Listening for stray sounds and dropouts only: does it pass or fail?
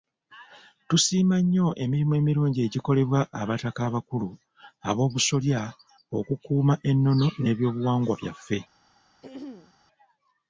fail